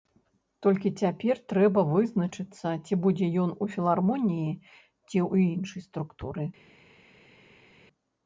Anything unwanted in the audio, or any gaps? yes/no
no